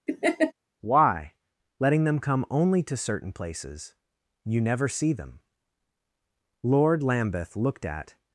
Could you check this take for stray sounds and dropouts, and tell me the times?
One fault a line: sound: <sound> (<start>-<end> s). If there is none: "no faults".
sound: laugh (0.1-0.5 s)